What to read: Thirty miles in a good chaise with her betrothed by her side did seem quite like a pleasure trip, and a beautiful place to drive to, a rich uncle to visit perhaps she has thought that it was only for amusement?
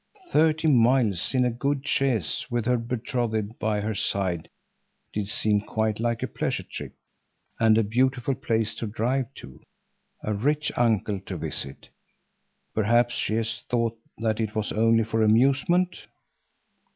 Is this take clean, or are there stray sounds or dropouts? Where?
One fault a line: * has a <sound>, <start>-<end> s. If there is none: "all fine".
all fine